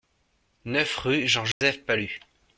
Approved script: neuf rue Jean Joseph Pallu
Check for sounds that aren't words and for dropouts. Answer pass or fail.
fail